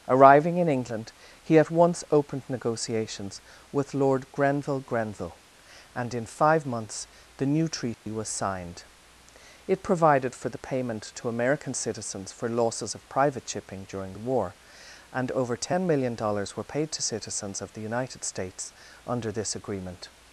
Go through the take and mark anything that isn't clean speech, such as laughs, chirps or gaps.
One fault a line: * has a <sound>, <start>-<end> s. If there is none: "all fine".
* has a dropout, 7.9-8.1 s